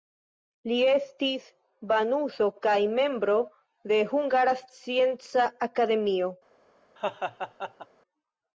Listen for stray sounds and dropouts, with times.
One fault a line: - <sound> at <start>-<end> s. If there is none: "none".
- laugh at 7.0-7.9 s